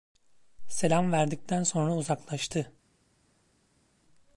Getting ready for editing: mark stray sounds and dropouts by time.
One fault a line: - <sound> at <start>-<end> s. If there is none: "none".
none